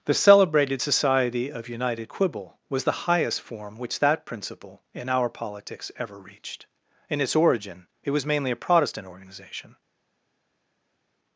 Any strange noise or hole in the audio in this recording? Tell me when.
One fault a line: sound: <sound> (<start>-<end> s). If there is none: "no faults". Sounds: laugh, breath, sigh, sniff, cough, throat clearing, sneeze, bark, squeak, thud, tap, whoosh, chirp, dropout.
no faults